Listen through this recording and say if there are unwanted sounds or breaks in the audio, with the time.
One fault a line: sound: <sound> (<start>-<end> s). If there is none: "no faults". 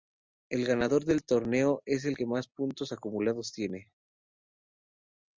no faults